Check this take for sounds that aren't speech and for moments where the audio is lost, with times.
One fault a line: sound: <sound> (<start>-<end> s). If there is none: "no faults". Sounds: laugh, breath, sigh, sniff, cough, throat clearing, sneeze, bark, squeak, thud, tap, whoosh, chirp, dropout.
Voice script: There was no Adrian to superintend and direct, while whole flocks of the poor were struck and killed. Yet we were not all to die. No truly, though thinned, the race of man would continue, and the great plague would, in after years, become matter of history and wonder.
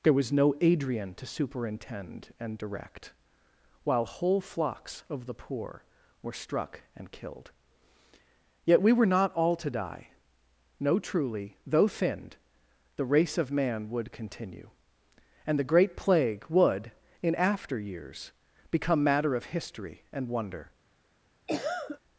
sound: cough (21.5-22.0 s)